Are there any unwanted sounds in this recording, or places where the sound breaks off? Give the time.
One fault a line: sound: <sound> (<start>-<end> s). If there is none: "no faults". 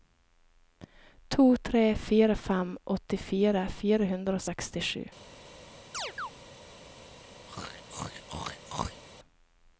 sound: chirp (5.9-6.3 s)
sound: throat clearing (7.5-9.0 s)